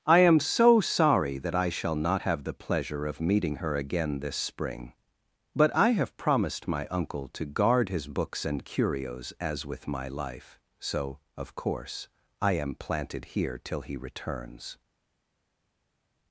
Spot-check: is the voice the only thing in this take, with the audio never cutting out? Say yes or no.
yes